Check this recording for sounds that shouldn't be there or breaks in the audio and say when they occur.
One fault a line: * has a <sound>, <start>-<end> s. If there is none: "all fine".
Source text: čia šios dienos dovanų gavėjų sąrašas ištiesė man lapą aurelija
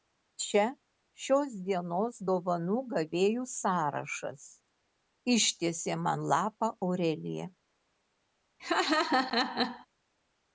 * has a laugh, 8.6-9.9 s